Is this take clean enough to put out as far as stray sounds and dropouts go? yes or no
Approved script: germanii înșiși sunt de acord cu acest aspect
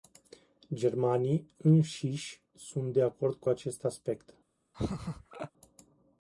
no